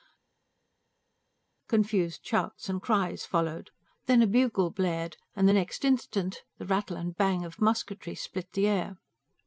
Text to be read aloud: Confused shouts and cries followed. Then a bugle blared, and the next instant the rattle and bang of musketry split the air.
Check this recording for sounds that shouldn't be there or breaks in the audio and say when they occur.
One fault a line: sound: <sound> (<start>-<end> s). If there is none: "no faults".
no faults